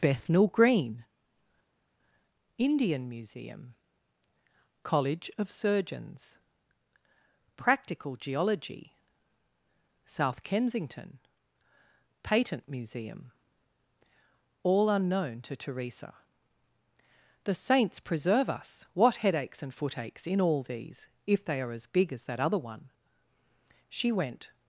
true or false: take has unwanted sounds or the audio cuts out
false